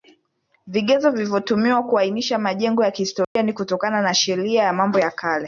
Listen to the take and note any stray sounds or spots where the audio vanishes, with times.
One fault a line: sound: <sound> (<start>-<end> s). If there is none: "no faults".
sound: dropout (3.2-3.4 s)